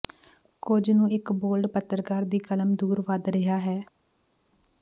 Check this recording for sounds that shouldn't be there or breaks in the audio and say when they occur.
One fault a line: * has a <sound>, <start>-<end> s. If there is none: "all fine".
all fine